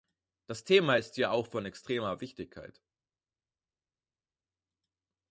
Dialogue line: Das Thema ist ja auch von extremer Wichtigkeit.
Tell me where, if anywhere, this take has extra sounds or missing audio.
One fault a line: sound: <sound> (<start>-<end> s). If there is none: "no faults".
no faults